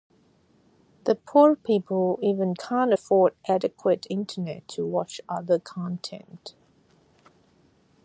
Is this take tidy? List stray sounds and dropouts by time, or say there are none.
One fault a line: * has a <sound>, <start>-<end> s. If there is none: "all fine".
all fine